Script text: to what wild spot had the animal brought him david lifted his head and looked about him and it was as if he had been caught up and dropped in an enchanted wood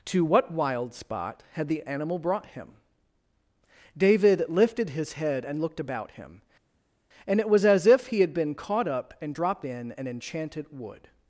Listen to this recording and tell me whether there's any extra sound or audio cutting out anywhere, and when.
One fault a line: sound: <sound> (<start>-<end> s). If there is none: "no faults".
no faults